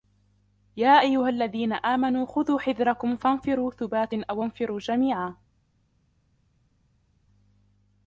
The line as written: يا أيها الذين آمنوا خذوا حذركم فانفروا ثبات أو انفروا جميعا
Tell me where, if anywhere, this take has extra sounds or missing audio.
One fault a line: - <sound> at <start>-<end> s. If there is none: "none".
none